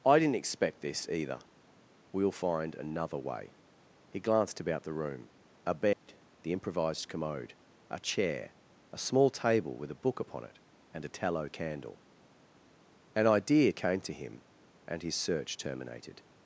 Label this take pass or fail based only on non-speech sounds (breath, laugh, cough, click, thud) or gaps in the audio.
fail